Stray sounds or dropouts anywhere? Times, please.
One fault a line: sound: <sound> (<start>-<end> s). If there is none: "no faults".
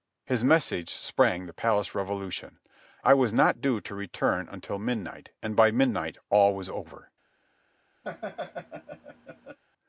sound: laugh (8.0-9.6 s)